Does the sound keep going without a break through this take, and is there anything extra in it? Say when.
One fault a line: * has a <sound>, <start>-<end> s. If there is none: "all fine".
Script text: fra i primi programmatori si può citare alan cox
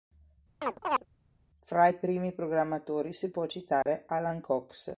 * has a chirp, 0.6-1.0 s
* has a dropout, 3.8-3.9 s